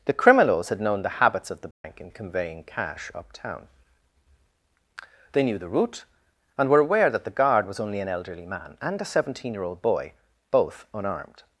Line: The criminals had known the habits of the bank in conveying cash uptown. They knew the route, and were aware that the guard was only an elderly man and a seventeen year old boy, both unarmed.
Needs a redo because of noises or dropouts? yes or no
yes